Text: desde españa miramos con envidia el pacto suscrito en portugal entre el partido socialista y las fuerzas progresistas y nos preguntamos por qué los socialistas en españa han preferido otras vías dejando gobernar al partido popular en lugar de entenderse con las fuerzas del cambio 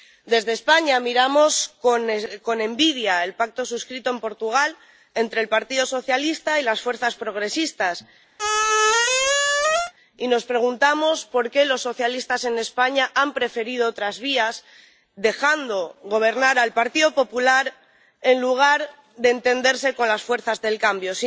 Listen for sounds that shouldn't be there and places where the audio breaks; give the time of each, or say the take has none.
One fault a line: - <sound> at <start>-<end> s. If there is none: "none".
- squeak at 8.4-9.9 s